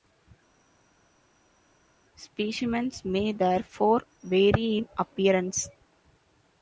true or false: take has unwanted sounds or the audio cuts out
false